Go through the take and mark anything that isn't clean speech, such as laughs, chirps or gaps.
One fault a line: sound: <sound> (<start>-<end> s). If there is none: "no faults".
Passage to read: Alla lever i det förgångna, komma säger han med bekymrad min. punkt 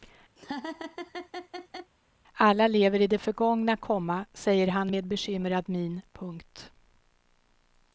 sound: laugh (0.4-1.9 s)